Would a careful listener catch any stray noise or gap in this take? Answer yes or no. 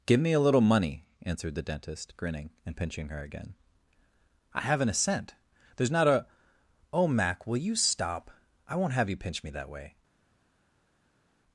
no